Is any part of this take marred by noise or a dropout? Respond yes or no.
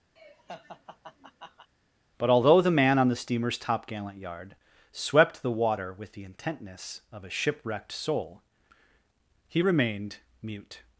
yes